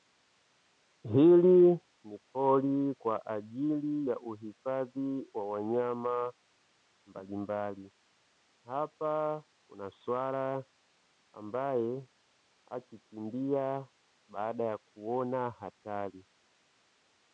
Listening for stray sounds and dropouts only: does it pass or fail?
pass